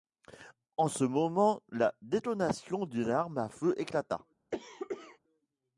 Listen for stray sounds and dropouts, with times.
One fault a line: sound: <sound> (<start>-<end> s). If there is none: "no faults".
sound: cough (4.5-5.2 s)